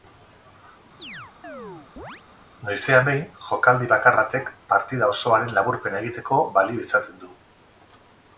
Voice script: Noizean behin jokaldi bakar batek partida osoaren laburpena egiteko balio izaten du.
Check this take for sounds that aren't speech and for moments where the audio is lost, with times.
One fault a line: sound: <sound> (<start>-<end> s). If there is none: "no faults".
sound: chirp (1.0-2.2 s)